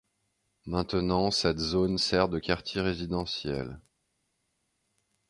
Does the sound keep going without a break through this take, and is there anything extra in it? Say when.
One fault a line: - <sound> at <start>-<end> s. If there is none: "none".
none